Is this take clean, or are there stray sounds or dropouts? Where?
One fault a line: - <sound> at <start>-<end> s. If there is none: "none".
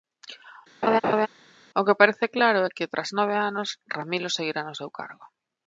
- laugh at 0.8-1.3 s